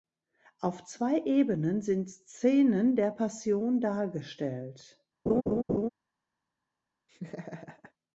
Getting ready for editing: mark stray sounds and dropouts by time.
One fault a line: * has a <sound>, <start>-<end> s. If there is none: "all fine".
* has a laugh, 5.3-5.9 s
* has a laugh, 7.1-7.9 s